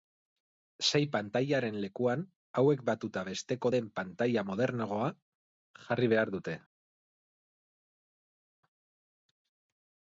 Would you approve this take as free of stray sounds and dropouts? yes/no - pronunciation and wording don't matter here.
yes